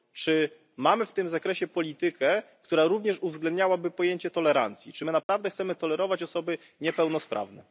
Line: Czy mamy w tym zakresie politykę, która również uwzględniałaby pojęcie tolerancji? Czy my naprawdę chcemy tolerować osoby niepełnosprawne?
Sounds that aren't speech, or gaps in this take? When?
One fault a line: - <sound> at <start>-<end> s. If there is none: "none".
- dropout at 5.2-5.3 s